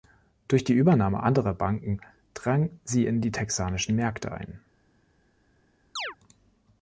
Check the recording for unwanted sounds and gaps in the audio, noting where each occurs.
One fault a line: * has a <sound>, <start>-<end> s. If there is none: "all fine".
* has a chirp, 6.0-6.2 s